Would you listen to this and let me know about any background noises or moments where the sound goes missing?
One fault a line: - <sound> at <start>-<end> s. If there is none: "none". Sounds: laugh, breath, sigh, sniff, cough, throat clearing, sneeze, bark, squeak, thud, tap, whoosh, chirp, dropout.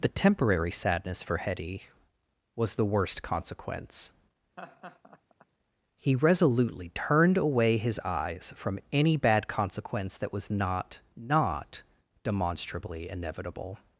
- laugh at 4.6-5.5 s